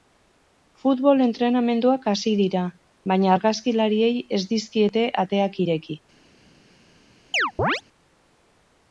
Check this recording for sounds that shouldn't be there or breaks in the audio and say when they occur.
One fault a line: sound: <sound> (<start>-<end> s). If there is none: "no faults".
sound: chirp (7.3-7.8 s)